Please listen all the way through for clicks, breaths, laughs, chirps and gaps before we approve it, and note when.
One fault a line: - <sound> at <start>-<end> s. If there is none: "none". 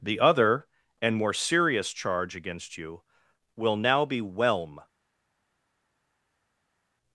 none